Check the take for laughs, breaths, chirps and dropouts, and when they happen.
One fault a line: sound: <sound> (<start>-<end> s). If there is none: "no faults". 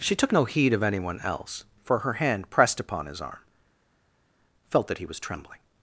no faults